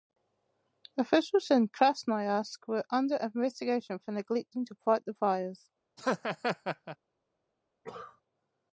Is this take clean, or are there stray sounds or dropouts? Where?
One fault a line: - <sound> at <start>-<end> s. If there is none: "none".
- laugh at 6.0-7.0 s
- cough at 7.8-8.2 s